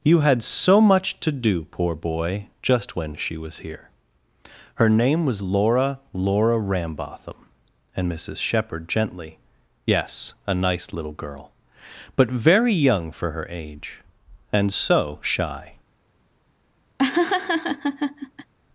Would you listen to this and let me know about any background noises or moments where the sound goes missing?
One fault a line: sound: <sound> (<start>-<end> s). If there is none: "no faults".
sound: laugh (17.0-18.5 s)